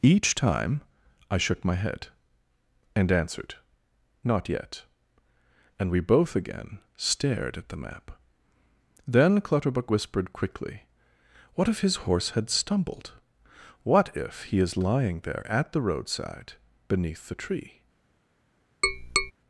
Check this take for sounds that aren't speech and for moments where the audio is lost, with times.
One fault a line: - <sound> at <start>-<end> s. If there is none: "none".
- tap at 18.8-19.3 s